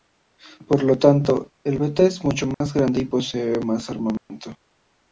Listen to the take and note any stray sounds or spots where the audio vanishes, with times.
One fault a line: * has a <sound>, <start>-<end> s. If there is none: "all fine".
* has a dropout, 2.5-2.6 s
* has a dropout, 4.2-4.3 s